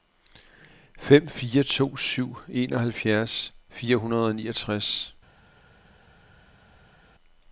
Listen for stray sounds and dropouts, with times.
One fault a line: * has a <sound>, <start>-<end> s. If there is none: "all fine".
all fine